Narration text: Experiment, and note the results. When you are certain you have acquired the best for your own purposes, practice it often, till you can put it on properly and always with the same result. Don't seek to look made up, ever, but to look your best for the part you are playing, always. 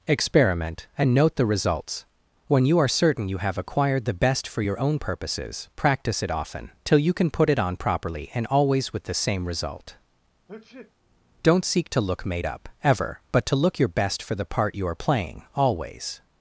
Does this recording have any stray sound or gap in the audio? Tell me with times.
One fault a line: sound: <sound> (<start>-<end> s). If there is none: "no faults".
sound: sneeze (10.5-10.9 s)